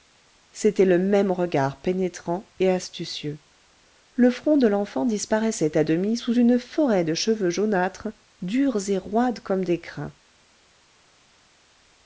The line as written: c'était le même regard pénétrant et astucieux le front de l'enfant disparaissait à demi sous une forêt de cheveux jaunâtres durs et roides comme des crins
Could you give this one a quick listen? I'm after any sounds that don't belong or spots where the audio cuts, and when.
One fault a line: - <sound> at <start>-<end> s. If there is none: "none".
none